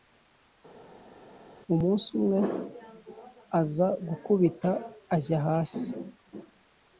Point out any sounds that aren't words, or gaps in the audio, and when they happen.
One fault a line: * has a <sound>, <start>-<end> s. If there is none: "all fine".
all fine